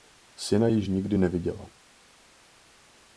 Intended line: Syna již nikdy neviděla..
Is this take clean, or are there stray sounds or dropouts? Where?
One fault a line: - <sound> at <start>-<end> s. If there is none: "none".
none